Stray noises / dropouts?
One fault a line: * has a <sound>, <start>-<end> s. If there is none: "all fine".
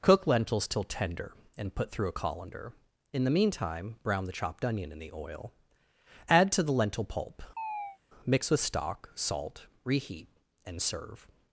* has a chirp, 7.6-8.0 s